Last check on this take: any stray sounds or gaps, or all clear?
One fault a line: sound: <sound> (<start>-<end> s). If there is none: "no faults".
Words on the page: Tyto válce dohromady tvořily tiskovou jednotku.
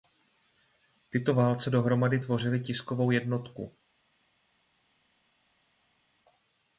no faults